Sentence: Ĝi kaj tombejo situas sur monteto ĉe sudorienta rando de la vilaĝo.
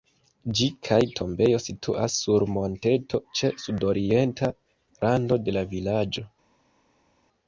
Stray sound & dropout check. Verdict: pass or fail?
pass